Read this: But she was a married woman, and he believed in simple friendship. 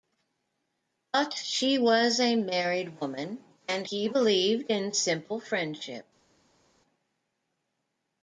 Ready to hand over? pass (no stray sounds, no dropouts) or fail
pass